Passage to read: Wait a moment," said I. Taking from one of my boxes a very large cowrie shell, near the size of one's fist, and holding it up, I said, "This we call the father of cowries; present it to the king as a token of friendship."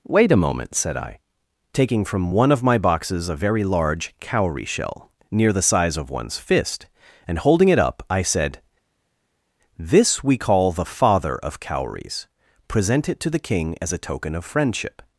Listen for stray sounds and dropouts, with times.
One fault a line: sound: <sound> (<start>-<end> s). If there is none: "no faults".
no faults